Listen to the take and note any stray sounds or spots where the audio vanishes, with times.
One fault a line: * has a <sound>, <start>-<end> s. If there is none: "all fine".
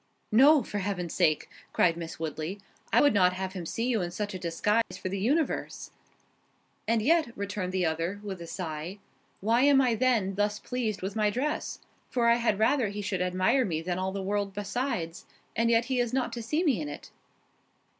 * has a dropout, 4.8-4.9 s